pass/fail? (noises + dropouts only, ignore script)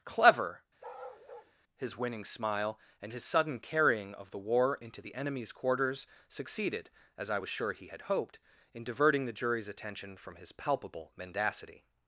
fail